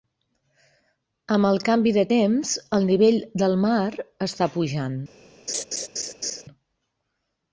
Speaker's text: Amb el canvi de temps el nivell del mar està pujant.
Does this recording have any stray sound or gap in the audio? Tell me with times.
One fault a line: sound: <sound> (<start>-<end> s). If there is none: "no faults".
sound: laugh (5.5-6.4 s)